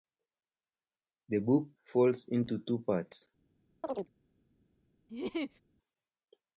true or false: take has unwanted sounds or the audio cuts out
true